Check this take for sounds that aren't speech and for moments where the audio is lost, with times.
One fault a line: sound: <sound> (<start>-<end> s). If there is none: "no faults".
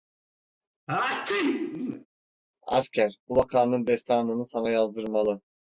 sound: sneeze (0.9-2.1 s)